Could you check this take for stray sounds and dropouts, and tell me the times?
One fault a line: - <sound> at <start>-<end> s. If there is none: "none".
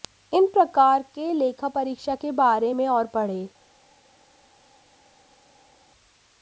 none